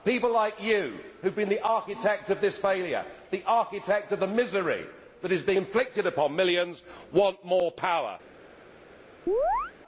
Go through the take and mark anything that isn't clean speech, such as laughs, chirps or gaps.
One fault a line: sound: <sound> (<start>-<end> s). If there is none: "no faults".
sound: chirp (9.3-9.7 s)